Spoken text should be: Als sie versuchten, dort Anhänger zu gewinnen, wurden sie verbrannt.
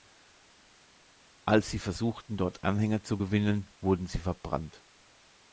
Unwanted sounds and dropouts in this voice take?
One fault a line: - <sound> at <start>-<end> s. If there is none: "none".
none